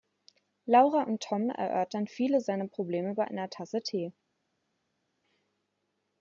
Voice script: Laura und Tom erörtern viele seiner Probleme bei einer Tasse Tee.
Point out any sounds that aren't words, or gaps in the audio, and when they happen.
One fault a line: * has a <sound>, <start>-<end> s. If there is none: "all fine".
all fine